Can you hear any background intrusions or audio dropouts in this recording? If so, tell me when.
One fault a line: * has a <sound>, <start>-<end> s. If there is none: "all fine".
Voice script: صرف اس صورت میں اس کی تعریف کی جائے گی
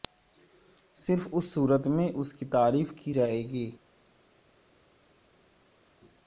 all fine